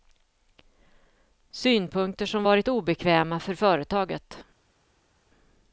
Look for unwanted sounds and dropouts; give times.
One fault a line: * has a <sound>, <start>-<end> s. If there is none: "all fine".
all fine